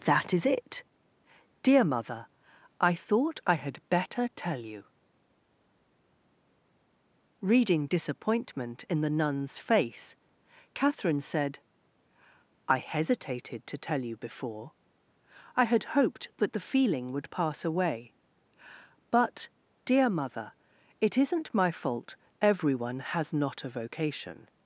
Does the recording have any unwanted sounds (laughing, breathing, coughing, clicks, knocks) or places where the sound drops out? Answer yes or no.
no